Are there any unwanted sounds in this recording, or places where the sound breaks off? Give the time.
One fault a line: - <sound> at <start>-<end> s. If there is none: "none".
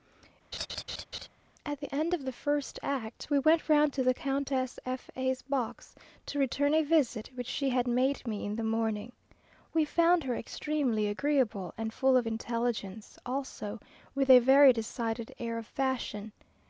- laugh at 0.5-1.3 s